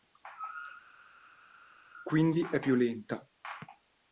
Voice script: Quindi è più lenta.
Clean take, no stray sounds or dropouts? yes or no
yes